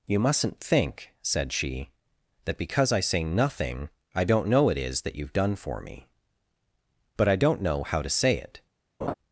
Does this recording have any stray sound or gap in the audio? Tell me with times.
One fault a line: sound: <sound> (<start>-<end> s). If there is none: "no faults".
sound: laugh (9.0-9.1 s)